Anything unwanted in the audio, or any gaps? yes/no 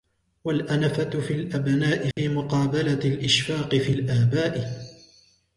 yes